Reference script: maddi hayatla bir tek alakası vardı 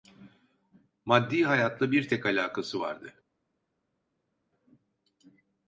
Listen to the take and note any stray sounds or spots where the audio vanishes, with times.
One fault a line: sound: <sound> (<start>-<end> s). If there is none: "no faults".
no faults